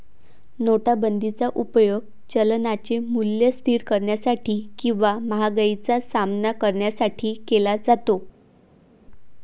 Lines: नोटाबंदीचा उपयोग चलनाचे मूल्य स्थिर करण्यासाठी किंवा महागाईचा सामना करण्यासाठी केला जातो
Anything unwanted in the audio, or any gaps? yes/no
no